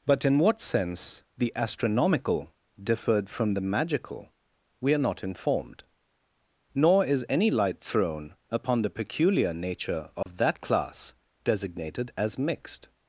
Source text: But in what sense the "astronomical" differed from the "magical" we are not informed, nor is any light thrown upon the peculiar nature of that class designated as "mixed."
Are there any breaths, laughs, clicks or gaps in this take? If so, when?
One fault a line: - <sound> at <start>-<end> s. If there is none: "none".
- dropout at 10.2-10.3 s